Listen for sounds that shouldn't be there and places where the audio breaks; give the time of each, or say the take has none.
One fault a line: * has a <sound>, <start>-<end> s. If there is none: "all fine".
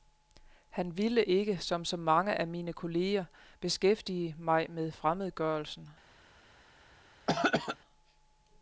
* has a throat clearing, 7.3-7.8 s